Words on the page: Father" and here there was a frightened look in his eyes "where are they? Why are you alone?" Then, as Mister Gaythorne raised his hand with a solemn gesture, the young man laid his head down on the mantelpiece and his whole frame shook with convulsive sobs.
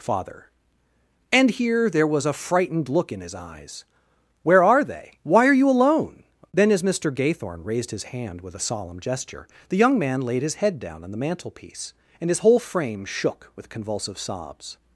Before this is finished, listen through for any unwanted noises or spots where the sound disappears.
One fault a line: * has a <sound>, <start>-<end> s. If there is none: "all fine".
all fine